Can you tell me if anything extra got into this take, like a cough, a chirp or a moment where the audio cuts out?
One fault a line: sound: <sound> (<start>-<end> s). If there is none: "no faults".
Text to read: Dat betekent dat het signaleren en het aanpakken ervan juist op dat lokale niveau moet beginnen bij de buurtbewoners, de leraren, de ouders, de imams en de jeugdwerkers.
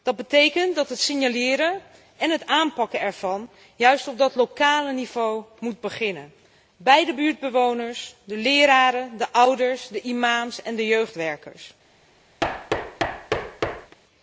sound: thud (12.4-14.0 s)